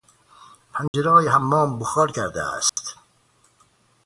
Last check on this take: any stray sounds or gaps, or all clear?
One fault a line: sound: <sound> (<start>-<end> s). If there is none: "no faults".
sound: dropout (0.9-0.9 s)
sound: dropout (2.7-2.8 s)